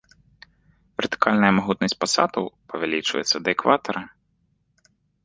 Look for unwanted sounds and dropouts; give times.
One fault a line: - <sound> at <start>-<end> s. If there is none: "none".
none